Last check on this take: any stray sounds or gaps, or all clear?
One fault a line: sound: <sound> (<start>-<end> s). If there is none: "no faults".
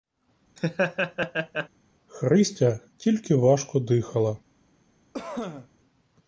sound: laugh (0.6-1.7 s)
sound: cough (5.1-5.7 s)